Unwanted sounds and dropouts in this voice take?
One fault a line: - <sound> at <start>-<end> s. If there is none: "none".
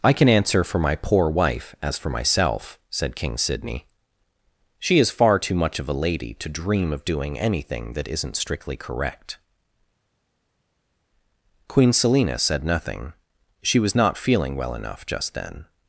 none